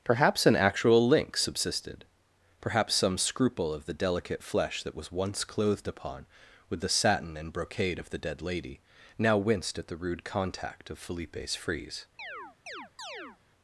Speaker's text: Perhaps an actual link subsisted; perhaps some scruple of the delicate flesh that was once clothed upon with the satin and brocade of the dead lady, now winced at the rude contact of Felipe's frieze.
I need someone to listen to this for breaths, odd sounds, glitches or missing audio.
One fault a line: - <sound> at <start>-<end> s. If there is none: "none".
- chirp at 12.2-13.4 s